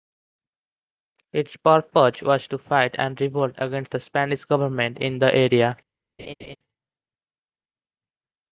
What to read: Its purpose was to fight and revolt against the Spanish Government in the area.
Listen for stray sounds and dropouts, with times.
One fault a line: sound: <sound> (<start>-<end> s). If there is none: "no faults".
sound: laugh (6.2-6.6 s)